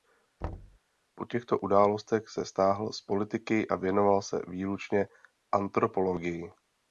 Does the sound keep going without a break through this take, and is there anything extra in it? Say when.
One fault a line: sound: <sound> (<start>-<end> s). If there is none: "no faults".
sound: thud (0.4-0.8 s)